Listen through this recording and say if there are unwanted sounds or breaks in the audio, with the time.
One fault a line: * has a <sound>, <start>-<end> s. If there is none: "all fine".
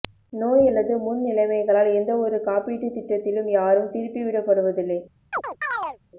* has a chirp, 5.3-6.0 s